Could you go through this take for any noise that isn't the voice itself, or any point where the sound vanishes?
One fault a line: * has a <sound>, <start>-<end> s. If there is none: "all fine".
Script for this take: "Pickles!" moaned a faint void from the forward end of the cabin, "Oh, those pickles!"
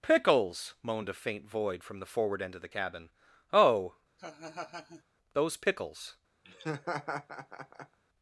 * has a laugh, 4.2-5.0 s
* has a laugh, 6.4-8.0 s